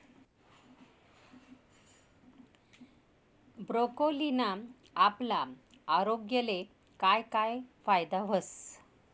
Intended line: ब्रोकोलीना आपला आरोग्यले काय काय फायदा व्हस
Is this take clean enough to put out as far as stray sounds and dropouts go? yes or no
yes